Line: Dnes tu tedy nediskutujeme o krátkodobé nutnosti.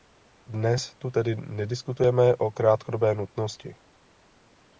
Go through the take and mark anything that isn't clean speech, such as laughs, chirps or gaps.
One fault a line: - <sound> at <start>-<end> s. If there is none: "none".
none